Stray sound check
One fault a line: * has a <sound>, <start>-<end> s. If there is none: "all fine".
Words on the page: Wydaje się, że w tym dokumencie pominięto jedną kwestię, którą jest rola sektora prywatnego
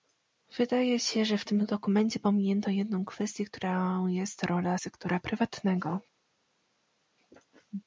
all fine